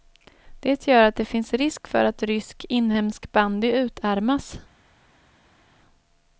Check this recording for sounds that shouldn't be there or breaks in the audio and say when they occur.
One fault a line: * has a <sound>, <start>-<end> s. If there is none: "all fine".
all fine